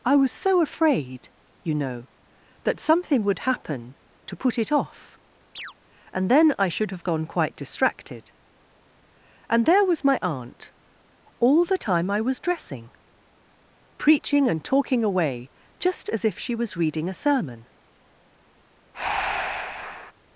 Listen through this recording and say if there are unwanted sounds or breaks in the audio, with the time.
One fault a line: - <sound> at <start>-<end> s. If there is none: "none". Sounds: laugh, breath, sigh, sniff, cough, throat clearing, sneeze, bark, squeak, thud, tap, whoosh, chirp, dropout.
- chirp at 5.6-5.7 s
- breath at 18.9-20.1 s